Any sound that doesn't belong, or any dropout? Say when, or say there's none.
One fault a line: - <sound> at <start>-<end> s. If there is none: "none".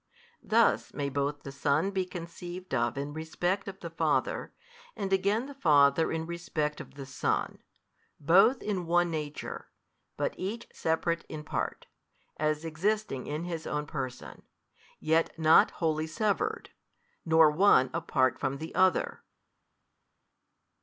none